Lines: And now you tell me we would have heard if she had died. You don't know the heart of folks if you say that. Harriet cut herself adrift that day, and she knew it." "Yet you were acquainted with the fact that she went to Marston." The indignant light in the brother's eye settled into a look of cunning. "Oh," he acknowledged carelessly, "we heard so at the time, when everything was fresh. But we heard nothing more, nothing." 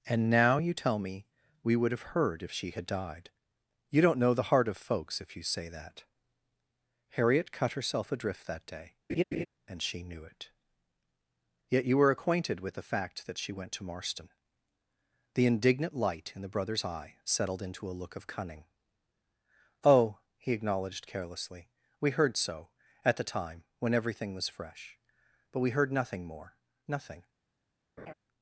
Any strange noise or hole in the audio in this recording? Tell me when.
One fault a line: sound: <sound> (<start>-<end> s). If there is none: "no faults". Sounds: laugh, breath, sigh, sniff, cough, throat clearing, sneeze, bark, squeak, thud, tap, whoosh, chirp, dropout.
sound: laugh (9.1-9.5 s)
sound: laugh (28.0-28.1 s)